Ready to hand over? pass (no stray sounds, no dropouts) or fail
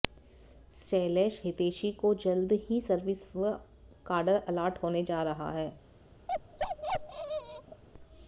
fail